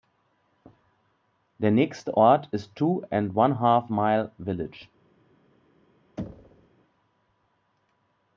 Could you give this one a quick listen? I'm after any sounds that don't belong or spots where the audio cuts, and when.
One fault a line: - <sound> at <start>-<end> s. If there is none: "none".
- thud at 6.2-6.7 s